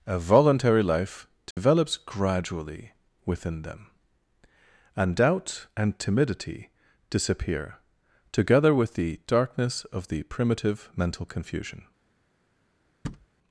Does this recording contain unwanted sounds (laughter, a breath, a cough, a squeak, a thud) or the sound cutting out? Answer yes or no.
yes